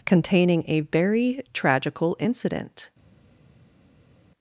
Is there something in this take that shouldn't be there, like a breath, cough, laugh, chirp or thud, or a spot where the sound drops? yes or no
no